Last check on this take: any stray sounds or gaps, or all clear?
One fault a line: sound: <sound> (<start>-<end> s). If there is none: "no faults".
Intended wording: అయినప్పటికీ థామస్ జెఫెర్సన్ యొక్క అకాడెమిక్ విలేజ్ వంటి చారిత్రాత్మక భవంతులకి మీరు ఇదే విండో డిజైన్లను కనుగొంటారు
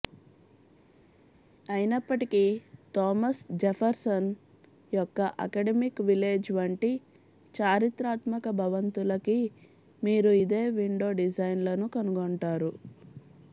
no faults